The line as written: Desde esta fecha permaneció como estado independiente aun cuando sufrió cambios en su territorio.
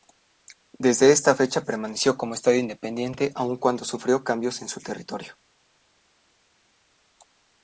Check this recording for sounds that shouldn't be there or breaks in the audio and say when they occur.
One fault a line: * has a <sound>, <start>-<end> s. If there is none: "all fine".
all fine